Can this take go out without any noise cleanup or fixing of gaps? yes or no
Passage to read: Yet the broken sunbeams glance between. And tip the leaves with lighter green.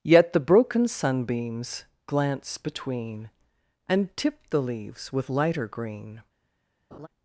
no